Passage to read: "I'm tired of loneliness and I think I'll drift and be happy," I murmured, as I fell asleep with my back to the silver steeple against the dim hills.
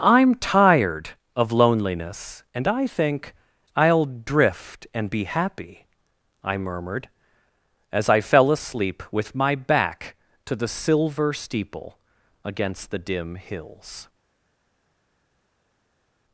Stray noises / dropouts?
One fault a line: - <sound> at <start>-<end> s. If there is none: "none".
none